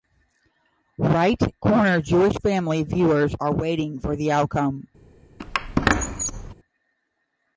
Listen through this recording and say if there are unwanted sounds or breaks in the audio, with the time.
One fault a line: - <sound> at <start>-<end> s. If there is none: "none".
- squeak at 5.4-6.5 s